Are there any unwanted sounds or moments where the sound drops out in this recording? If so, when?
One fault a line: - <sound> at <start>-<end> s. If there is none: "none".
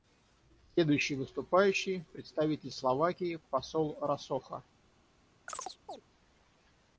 - chirp at 5.5-6.0 s